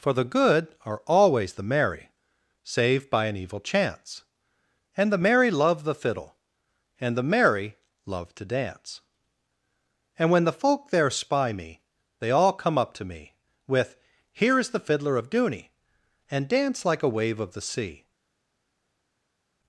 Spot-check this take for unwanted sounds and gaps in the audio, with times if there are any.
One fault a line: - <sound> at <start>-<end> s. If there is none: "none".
none